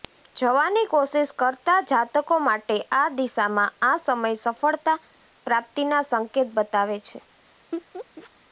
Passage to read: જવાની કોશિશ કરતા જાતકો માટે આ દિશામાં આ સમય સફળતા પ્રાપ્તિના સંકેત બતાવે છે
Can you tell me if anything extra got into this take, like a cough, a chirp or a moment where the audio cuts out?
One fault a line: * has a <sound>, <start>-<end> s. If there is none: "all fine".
* has a laugh, 7.7-8.3 s